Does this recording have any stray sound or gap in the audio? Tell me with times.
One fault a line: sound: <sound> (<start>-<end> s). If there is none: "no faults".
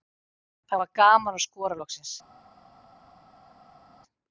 no faults